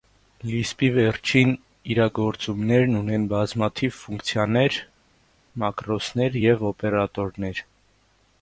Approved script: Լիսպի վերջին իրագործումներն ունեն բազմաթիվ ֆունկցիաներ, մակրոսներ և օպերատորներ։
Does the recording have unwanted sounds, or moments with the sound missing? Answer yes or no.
no